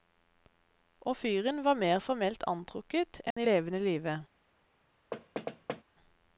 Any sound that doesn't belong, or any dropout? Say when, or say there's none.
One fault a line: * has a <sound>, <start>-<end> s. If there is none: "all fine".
* has a dropout, 3.3-3.4 s
* has a thud, 5.1-5.8 s